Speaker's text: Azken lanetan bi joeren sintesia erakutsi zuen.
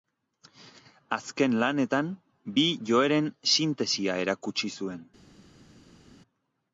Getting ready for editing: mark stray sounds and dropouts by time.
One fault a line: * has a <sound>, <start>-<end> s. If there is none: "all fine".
all fine